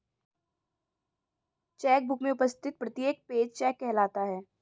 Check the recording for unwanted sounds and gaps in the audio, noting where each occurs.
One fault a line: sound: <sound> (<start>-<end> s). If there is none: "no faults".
no faults